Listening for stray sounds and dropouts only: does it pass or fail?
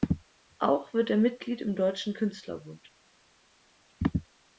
pass